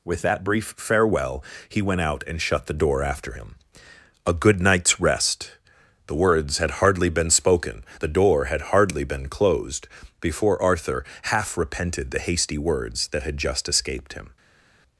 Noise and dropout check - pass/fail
pass